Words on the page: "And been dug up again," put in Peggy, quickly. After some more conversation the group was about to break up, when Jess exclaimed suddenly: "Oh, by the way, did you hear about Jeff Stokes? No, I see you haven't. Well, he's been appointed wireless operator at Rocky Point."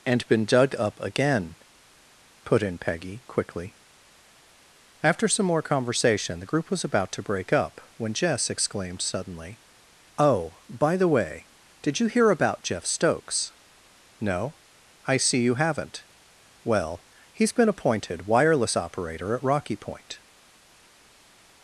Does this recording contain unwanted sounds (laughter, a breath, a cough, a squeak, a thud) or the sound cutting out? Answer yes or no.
no